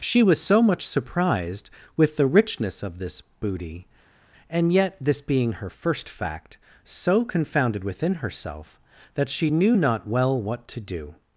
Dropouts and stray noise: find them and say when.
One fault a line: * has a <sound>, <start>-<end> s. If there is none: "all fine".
all fine